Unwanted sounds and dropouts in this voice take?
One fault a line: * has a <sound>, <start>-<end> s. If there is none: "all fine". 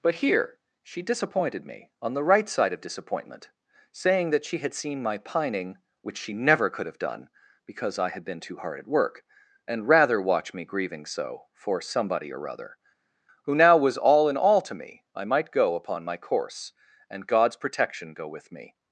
all fine